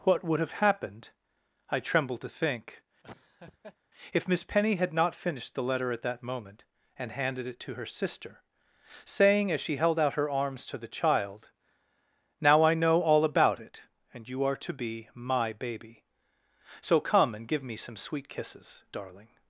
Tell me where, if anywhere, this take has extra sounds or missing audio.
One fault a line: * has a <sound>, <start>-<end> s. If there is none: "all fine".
* has a laugh, 3.0-3.8 s